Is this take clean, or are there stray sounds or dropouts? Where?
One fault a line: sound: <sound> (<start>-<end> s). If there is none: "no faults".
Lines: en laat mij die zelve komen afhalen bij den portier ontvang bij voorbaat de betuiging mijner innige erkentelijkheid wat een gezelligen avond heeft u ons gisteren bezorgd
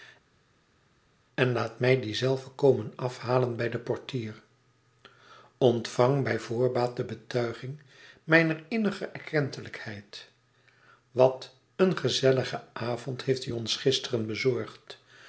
no faults